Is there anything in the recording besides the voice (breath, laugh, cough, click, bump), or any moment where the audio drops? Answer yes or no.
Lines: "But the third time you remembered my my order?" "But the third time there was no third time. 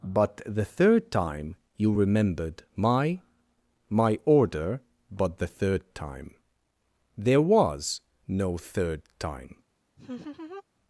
yes